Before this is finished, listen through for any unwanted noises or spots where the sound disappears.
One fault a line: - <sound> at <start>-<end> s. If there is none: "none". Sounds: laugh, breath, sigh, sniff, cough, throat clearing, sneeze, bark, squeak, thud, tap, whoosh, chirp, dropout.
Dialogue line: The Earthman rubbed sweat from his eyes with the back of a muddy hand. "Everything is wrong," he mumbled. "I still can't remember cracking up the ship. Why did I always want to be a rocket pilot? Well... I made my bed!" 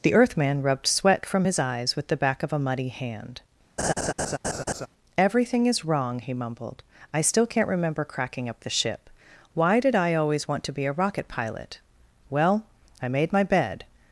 - laugh at 3.8-4.9 s